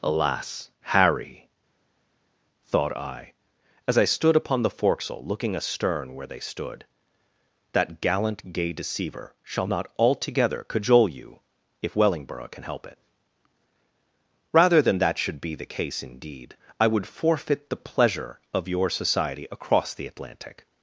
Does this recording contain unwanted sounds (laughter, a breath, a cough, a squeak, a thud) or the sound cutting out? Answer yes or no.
no